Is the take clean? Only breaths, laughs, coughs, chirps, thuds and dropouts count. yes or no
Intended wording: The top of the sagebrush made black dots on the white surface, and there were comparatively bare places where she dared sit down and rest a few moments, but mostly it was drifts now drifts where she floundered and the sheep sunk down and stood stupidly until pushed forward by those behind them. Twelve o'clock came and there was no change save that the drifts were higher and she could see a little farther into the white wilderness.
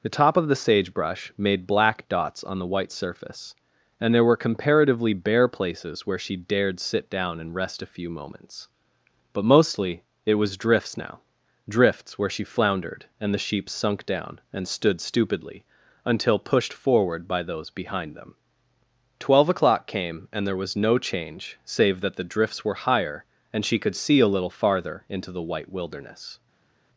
yes